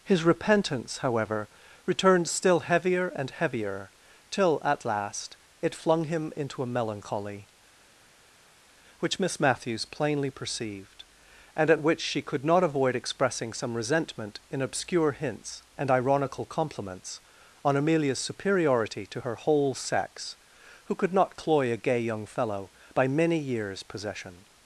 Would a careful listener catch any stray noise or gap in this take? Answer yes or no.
no